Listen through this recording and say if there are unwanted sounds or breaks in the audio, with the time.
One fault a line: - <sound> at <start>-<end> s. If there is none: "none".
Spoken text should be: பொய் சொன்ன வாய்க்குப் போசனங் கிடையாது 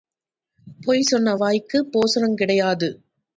none